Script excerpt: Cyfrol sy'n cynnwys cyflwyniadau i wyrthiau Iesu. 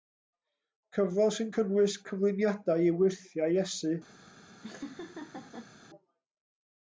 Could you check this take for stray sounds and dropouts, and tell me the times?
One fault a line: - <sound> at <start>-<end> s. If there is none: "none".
- laugh at 4.6-5.7 s